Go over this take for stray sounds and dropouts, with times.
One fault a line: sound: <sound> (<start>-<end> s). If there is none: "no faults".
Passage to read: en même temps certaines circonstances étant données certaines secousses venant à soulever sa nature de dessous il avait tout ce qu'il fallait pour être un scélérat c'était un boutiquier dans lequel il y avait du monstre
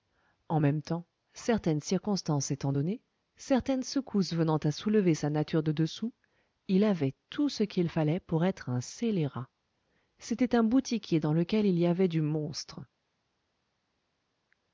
no faults